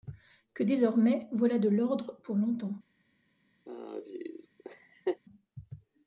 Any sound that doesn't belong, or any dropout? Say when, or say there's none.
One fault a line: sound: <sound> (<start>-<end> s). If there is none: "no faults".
sound: laugh (3.7-5.2 s)